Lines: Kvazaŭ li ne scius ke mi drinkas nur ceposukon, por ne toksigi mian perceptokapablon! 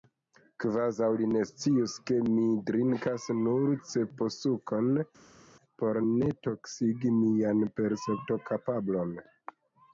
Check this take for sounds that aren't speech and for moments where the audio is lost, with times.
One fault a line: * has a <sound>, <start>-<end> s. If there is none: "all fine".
all fine